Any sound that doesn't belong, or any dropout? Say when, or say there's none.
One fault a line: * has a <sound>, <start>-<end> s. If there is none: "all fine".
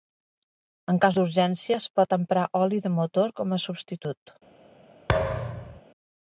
* has a thud, 5.1-5.8 s